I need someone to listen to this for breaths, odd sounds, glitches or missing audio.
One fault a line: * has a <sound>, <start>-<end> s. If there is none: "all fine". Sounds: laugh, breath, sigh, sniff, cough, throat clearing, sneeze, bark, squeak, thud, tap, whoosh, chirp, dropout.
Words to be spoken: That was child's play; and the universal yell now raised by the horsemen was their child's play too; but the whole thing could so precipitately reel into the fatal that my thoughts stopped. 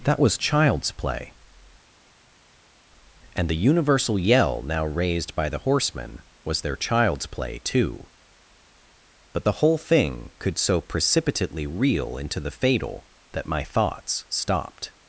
all fine